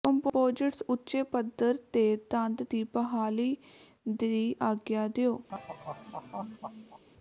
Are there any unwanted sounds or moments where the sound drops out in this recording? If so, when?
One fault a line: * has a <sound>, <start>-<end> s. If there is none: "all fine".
* has a laugh, 5.5-7.0 s